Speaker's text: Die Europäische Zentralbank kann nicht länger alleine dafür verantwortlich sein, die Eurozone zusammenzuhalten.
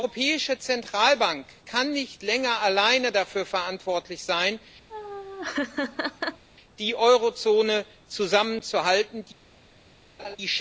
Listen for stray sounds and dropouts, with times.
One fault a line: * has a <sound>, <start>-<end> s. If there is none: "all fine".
* has a laugh, 4.9-6.4 s
* has a laugh, 10.2-10.4 s